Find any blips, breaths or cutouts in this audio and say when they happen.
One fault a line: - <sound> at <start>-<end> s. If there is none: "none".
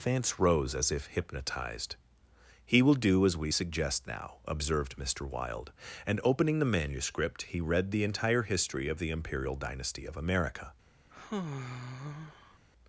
- sigh at 11.1-12.6 s